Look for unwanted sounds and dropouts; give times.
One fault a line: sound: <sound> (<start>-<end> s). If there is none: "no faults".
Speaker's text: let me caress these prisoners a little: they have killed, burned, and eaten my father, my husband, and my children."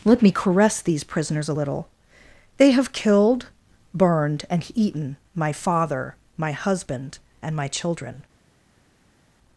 no faults